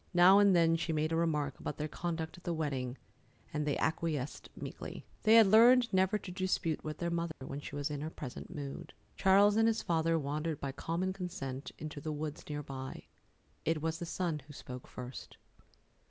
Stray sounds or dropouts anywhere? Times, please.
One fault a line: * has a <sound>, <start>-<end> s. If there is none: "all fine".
* has a dropout, 7.3-7.4 s